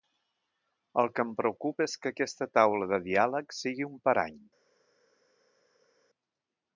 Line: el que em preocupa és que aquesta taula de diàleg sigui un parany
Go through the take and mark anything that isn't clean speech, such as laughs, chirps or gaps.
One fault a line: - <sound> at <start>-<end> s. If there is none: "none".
none